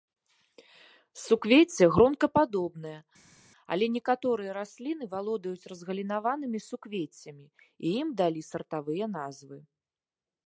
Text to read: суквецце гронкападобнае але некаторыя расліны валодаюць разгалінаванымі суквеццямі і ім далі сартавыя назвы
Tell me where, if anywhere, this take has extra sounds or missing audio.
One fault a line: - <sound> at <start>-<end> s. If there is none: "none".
none